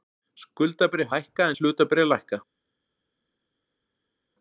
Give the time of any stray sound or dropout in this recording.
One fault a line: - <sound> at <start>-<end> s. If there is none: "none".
none